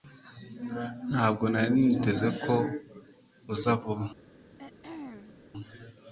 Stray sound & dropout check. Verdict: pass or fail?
fail